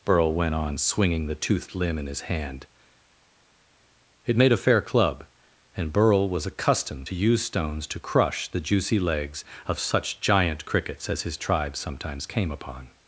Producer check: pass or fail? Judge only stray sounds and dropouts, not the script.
pass